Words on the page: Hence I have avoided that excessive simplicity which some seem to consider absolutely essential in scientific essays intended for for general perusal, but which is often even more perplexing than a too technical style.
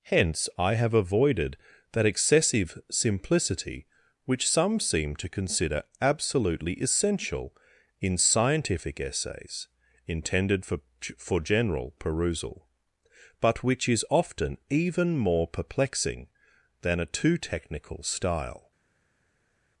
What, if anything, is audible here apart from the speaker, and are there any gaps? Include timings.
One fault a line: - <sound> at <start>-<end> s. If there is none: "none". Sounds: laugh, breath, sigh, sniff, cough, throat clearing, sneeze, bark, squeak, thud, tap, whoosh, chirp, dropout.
none